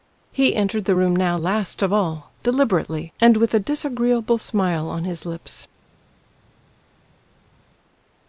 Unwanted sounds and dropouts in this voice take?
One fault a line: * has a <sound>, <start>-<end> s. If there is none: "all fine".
all fine